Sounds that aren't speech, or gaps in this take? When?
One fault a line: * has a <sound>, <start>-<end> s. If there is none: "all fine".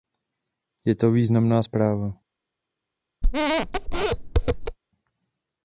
* has a squeak, 3.2-4.8 s